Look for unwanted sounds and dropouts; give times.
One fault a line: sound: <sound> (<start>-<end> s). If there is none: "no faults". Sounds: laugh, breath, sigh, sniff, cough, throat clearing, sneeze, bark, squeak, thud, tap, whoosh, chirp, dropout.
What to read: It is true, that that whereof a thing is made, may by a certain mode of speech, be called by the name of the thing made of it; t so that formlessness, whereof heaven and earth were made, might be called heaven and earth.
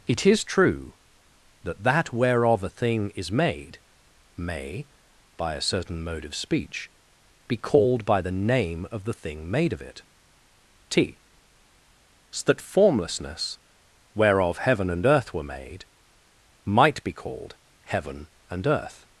no faults